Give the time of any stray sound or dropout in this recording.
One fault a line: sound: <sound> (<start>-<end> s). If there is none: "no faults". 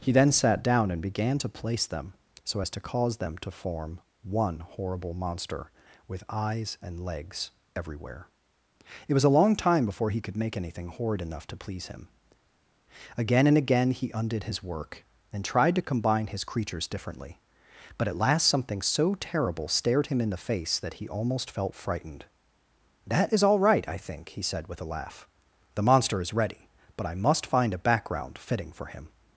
no faults